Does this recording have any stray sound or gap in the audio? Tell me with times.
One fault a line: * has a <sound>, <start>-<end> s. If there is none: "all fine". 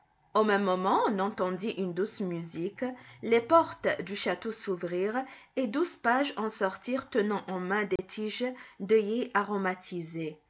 * has a dropout, 8.0-8.0 s